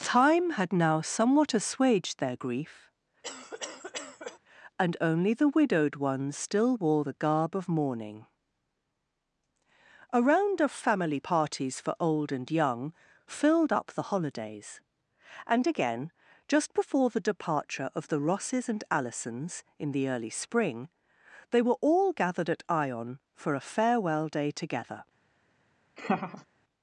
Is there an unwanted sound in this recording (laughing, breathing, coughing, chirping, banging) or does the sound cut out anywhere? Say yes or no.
yes